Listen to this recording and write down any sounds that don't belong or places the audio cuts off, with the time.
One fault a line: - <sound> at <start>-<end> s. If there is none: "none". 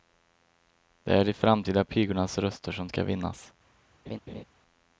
- laugh at 4.1-4.4 s